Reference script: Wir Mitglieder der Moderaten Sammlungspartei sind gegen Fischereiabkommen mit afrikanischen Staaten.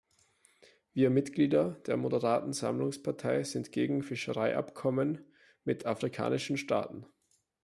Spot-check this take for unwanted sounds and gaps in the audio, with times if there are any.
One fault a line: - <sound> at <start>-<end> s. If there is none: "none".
none